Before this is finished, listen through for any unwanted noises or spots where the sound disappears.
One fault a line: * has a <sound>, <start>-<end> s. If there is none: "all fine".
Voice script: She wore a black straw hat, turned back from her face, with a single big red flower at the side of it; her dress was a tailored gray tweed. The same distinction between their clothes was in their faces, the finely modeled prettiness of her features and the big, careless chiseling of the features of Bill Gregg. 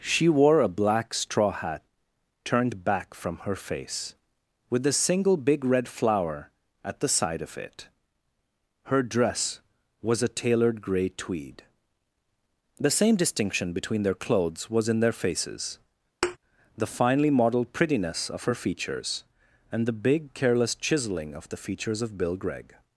* has a thud, 16.2-16.4 s